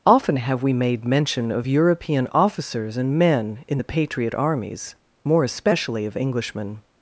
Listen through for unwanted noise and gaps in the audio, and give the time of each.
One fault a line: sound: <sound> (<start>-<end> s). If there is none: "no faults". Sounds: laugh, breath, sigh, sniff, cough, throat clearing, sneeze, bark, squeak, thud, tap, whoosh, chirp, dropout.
no faults